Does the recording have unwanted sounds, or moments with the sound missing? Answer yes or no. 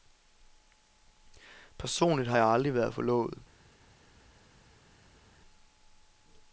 no